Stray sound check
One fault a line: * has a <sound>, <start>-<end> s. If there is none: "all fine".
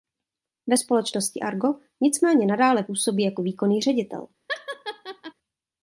* has a laugh, 4.5-5.3 s